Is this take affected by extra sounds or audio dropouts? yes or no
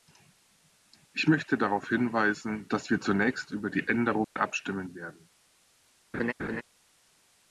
yes